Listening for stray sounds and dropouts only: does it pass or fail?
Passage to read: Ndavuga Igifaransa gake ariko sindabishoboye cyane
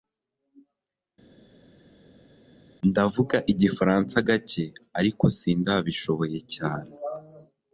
pass